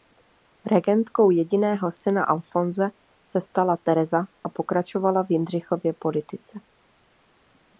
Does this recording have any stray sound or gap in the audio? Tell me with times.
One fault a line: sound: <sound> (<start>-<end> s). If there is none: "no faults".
sound: dropout (2.0-2.0 s)